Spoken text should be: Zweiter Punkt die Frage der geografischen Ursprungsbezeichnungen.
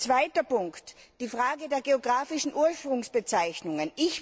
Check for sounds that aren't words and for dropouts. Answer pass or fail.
pass